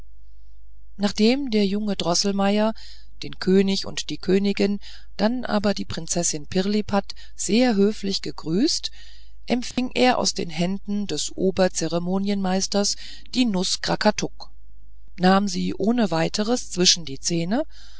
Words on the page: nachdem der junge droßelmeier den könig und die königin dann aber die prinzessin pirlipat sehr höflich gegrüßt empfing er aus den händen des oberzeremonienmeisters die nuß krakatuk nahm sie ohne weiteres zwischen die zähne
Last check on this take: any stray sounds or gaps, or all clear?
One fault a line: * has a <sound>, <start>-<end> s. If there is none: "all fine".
* has a dropout, 9.7-9.8 s